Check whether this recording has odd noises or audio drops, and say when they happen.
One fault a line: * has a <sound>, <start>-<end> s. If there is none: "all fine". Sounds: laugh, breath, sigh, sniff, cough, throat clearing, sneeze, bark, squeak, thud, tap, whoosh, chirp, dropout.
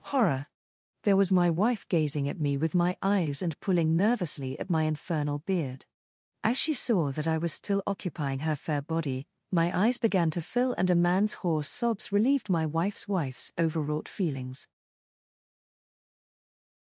all fine